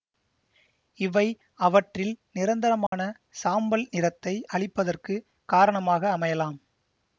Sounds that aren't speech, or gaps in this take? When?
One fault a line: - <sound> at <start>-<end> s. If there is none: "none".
- dropout at 2.9-2.9 s